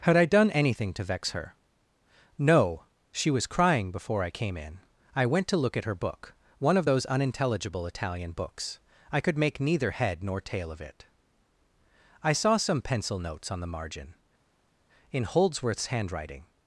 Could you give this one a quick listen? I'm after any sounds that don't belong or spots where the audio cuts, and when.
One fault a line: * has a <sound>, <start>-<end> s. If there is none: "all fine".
all fine